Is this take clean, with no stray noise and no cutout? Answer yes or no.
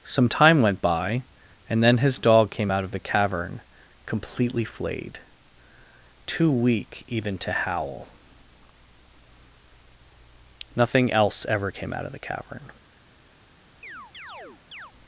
no